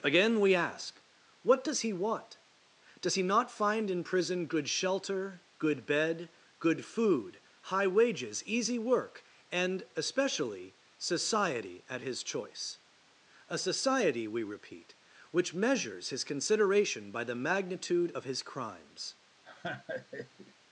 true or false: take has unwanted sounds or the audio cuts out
true